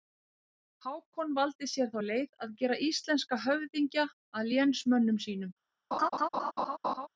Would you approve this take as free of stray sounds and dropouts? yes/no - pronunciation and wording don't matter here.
no